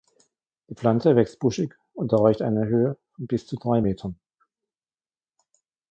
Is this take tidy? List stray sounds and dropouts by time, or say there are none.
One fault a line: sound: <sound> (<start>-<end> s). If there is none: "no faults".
no faults